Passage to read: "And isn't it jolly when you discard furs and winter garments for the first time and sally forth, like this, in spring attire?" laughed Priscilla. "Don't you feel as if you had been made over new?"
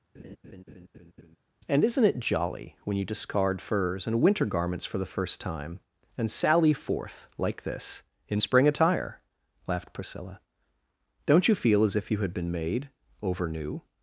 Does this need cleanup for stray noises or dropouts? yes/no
yes